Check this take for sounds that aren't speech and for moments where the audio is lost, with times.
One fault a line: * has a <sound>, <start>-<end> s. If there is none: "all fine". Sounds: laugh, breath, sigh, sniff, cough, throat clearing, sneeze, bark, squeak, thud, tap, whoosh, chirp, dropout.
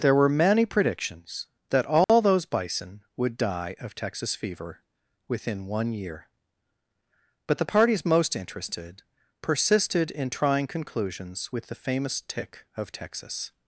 * has a dropout, 2.0-2.1 s